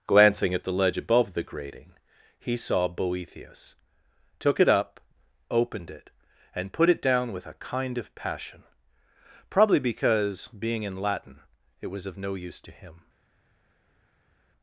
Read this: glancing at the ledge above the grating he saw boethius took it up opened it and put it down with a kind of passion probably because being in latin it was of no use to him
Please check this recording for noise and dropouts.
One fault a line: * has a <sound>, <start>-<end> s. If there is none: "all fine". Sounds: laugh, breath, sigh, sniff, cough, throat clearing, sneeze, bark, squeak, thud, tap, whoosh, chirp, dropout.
all fine